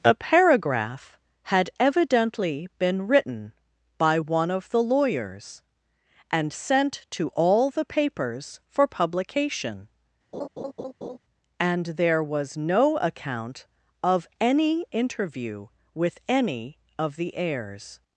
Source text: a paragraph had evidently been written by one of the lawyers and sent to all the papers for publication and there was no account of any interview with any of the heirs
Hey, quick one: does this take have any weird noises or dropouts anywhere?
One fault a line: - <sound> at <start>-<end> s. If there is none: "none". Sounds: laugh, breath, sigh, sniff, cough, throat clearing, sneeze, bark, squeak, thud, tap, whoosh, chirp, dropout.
- laugh at 10.3-11.2 s